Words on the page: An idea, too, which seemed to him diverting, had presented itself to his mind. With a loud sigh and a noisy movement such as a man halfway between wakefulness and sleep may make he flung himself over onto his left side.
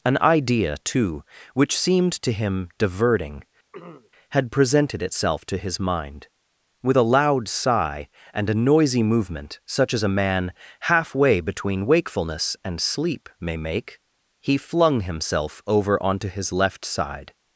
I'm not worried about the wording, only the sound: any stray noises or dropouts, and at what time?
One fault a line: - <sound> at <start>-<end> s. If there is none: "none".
- throat clearing at 3.7-4.1 s